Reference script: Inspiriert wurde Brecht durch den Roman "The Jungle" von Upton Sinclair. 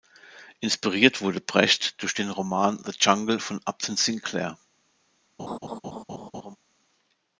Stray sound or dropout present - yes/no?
yes